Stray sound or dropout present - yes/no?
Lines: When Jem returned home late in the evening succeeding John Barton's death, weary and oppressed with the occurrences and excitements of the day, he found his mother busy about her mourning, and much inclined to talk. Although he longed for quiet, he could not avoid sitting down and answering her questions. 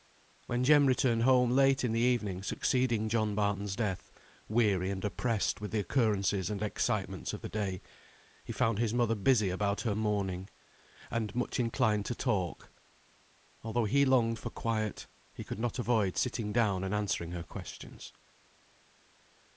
no